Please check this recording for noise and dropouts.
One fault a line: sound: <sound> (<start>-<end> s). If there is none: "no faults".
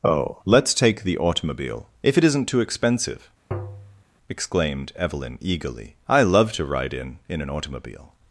sound: tap (3.5-4.0 s)